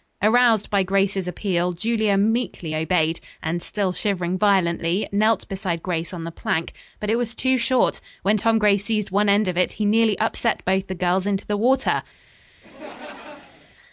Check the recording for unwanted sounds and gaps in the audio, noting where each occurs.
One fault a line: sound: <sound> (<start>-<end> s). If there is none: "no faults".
sound: laugh (12.6-13.8 s)